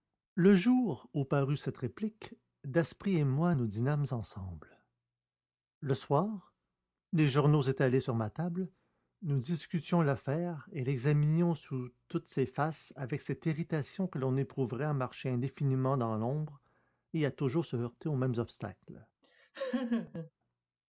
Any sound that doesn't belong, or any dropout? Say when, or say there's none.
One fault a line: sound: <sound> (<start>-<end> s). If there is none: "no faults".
sound: laugh (19.2-20.3 s)